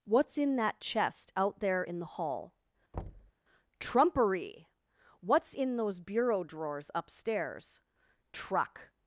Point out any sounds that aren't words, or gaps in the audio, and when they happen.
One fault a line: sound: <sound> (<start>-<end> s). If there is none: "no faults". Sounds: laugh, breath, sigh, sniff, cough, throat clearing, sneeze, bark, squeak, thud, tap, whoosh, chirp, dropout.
sound: thud (2.9-3.3 s)